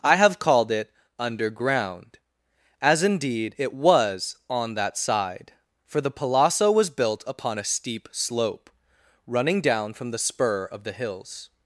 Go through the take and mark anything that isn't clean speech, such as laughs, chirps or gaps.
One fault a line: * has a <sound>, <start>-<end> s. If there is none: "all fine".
all fine